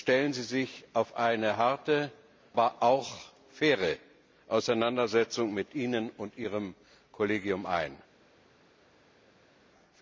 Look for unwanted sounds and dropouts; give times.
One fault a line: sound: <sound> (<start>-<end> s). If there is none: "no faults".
no faults